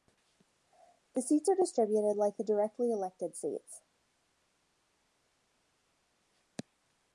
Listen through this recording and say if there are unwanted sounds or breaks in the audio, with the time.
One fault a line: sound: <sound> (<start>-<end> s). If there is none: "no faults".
no faults